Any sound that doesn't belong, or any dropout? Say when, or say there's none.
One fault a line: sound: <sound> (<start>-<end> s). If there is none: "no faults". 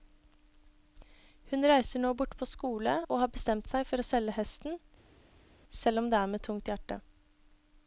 no faults